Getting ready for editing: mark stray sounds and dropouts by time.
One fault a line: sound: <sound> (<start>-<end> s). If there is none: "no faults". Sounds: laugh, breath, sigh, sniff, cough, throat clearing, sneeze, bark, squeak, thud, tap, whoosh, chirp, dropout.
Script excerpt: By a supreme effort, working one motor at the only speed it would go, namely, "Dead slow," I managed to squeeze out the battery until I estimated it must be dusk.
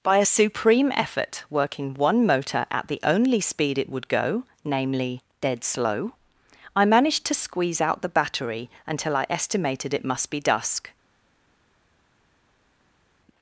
no faults